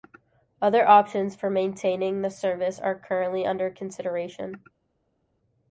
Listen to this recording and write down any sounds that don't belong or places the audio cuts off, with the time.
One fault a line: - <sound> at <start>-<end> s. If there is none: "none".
none